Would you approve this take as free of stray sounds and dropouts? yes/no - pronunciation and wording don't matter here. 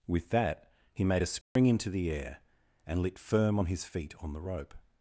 no